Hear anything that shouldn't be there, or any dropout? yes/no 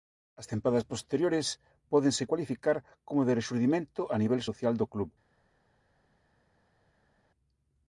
no